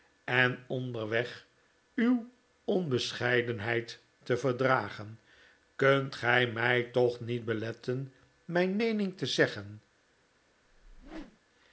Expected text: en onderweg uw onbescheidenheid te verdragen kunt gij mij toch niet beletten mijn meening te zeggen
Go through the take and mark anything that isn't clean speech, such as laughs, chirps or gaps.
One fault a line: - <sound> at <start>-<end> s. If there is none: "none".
- whoosh at 10.7-11.4 s